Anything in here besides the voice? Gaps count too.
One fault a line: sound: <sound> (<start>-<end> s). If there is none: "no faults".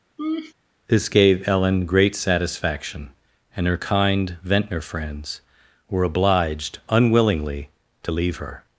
sound: laugh (0.2-0.5 s)